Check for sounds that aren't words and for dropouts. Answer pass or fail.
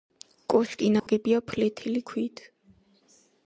fail